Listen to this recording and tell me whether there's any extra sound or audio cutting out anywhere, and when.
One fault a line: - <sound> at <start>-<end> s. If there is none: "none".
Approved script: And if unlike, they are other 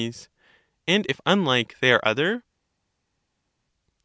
none